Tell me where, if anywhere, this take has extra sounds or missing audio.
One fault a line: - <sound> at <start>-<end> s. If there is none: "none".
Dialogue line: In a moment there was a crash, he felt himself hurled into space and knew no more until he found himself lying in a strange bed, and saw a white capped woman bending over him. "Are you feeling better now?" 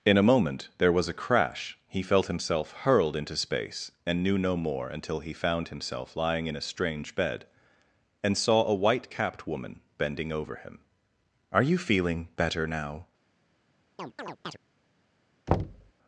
- chirp at 14.0-14.6 s
- thud at 15.5-15.9 s